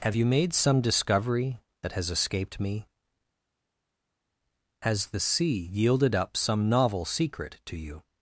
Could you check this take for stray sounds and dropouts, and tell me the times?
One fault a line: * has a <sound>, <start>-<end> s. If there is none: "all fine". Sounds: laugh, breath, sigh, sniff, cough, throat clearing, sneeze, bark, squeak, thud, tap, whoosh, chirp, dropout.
all fine